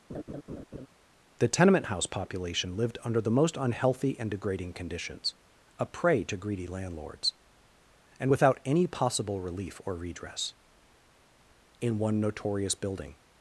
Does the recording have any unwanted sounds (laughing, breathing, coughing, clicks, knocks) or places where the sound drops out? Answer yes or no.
yes